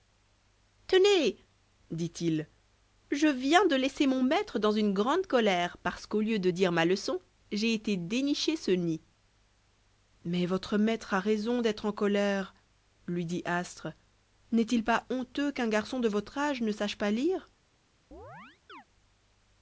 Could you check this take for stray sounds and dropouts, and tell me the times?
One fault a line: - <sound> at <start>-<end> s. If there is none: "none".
- chirp at 18.1-18.8 s